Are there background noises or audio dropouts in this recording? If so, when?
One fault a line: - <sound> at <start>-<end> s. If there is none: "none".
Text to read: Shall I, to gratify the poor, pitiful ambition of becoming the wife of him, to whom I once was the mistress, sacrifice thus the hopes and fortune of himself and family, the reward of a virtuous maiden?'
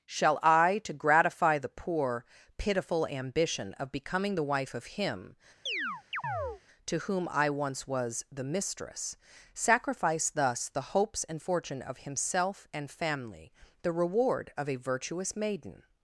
- chirp at 5.7-6.6 s